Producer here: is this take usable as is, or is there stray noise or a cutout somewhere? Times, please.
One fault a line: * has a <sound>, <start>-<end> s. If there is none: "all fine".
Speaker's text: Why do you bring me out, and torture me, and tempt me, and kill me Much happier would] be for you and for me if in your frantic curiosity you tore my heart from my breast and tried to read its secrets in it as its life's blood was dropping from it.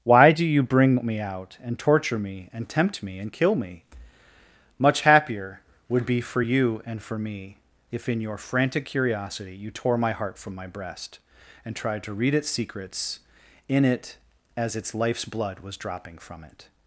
all fine